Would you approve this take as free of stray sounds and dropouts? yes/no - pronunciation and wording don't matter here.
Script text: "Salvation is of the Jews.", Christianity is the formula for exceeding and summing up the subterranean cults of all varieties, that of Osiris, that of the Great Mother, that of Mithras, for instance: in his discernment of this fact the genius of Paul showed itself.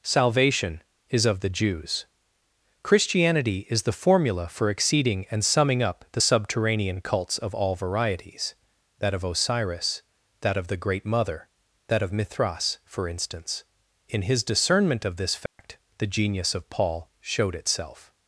no